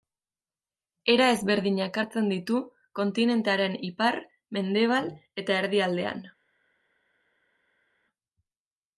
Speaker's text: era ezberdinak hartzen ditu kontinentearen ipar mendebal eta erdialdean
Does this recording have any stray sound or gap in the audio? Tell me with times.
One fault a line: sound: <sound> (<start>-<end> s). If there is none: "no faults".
no faults